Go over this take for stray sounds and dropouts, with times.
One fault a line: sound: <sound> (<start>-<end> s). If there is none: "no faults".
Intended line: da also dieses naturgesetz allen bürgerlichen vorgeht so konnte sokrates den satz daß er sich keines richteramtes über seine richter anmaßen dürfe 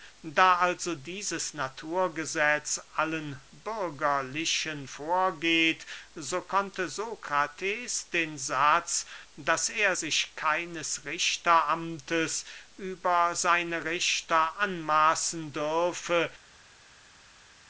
no faults